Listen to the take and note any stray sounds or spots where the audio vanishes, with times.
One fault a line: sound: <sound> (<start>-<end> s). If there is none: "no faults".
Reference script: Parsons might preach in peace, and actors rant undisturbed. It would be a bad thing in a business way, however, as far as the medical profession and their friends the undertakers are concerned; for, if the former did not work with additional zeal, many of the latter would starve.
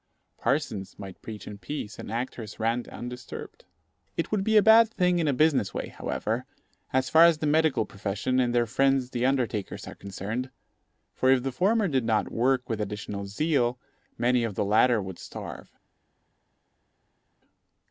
no faults